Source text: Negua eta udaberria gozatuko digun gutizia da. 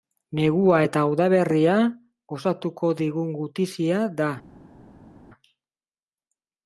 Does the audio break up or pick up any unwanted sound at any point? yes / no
no